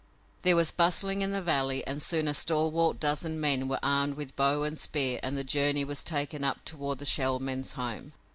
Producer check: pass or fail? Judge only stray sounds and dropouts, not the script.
pass